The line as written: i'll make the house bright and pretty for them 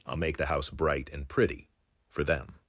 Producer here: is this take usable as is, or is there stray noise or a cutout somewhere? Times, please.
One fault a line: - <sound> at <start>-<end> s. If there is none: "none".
none